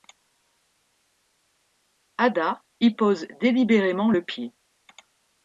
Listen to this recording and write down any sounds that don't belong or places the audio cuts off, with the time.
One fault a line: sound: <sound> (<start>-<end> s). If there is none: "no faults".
no faults